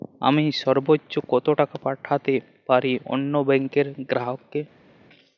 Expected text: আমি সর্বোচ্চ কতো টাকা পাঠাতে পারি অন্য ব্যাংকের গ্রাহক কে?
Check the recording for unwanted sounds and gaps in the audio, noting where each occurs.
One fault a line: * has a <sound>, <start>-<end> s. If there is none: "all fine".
all fine